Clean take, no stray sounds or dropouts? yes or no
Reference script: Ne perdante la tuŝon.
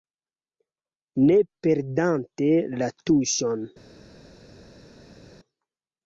yes